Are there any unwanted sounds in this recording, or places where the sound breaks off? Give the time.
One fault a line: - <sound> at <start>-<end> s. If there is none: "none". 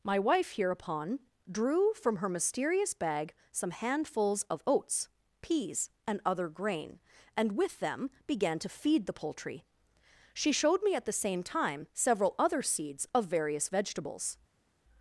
none